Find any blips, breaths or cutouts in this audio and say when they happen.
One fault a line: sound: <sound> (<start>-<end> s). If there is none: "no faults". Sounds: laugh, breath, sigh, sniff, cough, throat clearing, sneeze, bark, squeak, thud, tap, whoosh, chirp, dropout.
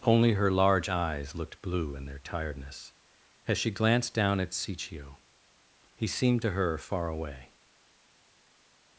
no faults